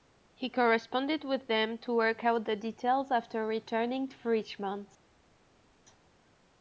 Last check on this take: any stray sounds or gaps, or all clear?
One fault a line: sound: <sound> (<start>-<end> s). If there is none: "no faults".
no faults